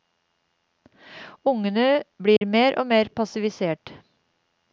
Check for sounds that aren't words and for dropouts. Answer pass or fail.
fail